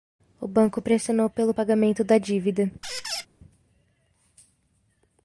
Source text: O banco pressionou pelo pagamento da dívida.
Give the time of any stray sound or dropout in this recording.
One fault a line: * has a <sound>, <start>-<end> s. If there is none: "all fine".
* has a squeak, 2.8-3.3 s